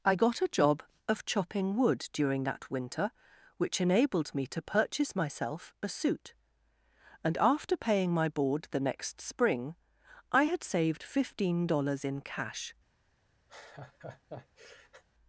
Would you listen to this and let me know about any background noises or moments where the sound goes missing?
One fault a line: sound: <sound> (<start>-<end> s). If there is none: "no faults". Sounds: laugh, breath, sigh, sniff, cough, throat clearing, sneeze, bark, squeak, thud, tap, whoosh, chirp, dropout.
sound: laugh (13.5-15.0 s)